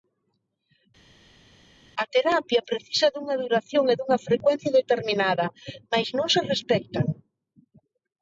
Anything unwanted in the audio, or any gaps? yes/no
no